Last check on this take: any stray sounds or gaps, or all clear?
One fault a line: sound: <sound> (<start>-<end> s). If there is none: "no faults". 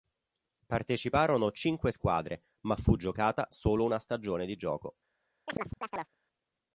sound: chirp (5.5-6.2 s)